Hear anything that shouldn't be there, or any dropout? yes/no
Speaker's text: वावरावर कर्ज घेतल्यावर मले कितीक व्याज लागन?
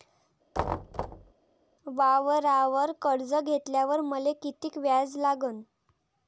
yes